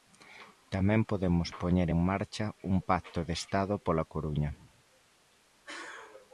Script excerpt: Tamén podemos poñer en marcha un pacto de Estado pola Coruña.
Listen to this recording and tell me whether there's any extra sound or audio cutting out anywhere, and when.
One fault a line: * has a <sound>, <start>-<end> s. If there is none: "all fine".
all fine